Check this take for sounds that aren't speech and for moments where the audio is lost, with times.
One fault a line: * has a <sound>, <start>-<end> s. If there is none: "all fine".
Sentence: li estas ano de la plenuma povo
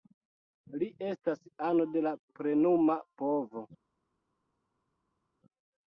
all fine